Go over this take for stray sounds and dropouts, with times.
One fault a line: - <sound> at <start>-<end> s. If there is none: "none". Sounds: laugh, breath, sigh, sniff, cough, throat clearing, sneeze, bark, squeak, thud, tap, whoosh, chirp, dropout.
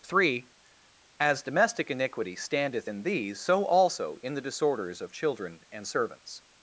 none